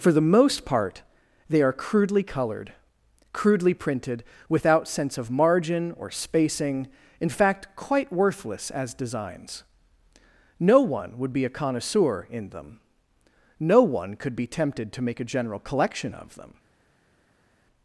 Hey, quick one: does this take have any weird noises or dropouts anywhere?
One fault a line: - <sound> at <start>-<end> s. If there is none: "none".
none